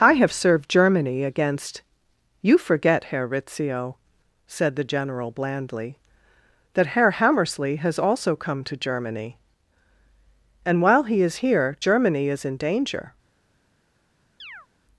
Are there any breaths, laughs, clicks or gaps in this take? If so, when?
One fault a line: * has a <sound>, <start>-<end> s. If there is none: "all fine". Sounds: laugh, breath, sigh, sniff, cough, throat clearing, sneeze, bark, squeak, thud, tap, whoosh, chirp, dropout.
* has a chirp, 14.4-14.7 s